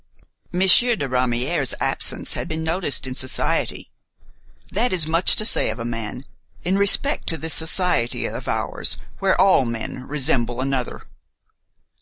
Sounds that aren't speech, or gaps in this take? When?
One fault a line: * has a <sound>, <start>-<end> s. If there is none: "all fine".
all fine